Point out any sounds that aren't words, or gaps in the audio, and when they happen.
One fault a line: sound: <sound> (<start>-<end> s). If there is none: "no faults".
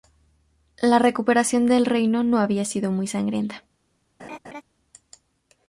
sound: laugh (4.2-4.6 s)